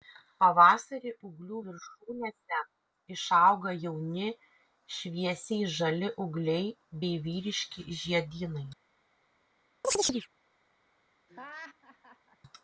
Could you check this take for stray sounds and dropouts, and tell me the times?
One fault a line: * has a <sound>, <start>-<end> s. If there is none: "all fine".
* has a chirp, 9.8-10.3 s
* has a laugh, 11.3-12.4 s